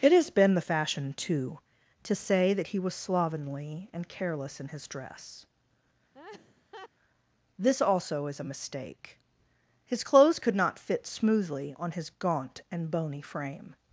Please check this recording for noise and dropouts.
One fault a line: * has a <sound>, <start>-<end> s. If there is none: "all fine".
* has a laugh, 6.1-6.9 s